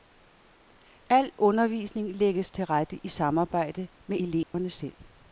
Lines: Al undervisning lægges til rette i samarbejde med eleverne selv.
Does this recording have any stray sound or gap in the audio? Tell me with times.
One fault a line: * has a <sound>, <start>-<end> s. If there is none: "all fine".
* has a dropout, 4.4-4.5 s